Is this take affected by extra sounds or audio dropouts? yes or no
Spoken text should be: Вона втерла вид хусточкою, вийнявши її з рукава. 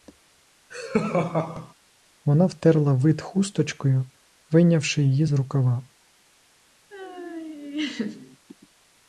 yes